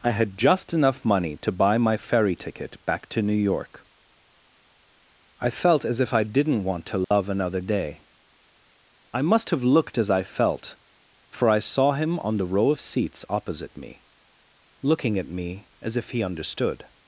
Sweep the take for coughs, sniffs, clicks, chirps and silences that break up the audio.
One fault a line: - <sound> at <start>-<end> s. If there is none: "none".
- dropout at 7.0-7.1 s